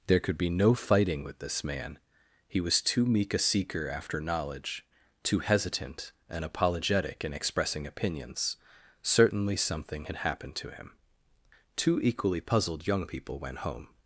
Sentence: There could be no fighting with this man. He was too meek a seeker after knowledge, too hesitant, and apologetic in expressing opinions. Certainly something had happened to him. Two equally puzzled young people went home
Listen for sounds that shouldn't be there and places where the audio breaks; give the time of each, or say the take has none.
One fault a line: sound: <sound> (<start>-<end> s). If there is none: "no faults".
no faults